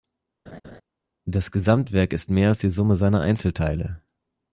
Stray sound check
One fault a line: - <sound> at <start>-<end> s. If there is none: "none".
- laugh at 0.5-0.8 s